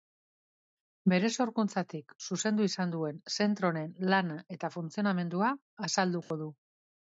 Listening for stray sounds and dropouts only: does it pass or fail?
fail